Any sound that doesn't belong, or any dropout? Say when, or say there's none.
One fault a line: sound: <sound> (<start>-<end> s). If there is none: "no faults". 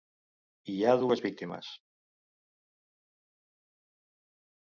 no faults